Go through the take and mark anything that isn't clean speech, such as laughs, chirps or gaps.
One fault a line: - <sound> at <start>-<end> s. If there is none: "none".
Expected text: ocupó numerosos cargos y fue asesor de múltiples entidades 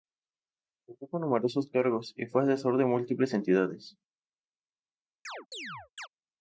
- chirp at 5.2-6.1 s